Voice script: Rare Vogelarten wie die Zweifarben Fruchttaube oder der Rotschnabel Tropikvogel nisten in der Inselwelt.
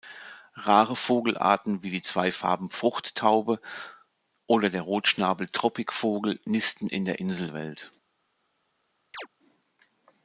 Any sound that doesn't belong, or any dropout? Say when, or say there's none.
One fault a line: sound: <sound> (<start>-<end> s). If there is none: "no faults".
sound: chirp (9.1-9.3 s)